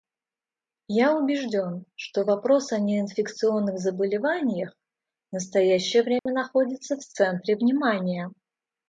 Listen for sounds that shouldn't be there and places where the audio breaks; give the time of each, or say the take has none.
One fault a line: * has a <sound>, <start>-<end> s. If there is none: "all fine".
* has a dropout, 6.2-6.3 s